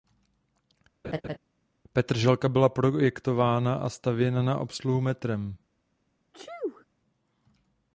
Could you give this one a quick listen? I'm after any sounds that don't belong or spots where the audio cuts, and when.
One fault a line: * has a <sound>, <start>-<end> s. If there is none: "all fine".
* has a laugh, 1.0-1.4 s
* has a sneeze, 6.3-6.9 s